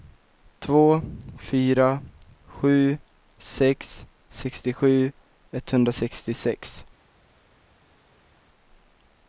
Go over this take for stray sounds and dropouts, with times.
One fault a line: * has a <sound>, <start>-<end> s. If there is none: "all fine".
all fine